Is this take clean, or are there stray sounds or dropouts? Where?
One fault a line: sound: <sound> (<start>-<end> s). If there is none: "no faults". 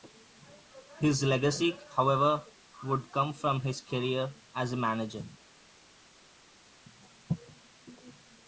no faults